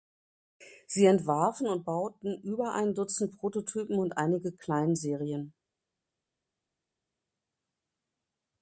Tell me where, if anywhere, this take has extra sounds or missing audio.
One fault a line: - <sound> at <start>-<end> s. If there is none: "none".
none